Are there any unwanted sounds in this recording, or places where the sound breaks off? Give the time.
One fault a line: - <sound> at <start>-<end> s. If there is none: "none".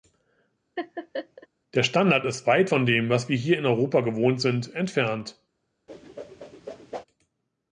- laugh at 0.8-1.5 s
- whoosh at 5.9-7.0 s